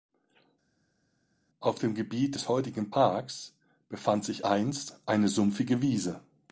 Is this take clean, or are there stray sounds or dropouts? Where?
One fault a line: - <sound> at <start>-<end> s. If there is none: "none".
none